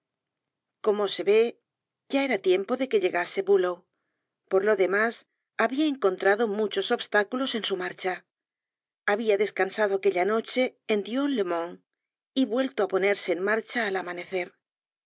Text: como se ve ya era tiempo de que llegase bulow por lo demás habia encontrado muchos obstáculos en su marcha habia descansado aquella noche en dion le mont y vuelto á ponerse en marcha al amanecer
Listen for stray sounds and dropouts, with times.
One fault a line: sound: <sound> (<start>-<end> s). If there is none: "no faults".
no faults